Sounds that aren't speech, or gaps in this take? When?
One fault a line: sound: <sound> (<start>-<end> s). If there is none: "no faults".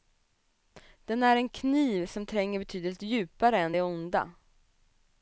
no faults